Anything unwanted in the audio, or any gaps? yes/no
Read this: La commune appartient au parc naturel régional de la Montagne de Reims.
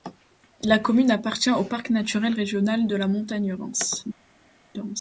no